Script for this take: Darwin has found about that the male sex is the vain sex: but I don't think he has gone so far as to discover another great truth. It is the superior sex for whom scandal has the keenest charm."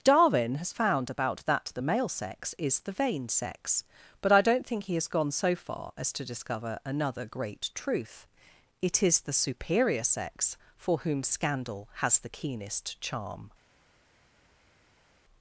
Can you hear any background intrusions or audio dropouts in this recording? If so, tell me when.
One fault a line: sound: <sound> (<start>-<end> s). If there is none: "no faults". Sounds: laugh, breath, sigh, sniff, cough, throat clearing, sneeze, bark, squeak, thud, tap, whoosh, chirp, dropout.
no faults